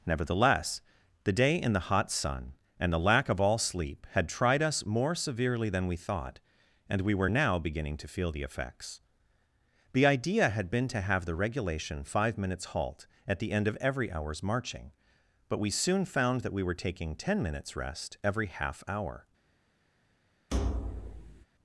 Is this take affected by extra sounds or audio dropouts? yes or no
yes